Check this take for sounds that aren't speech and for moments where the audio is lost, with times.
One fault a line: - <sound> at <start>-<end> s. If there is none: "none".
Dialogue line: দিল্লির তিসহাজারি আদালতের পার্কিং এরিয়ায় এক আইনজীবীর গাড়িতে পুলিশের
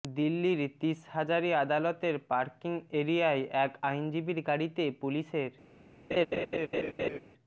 - laugh at 6.1-7.2 s